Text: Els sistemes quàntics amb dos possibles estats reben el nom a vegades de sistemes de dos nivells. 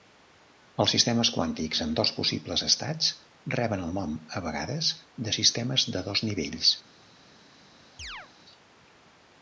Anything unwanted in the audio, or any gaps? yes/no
yes